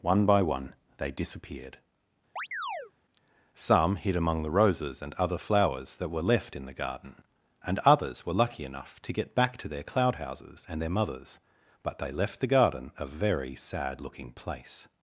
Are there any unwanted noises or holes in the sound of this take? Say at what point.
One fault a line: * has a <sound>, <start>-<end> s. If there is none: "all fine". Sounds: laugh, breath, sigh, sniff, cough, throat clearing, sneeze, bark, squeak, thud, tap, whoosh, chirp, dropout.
* has a chirp, 2.4-2.9 s